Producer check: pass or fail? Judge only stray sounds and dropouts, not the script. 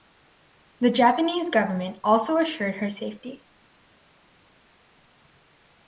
pass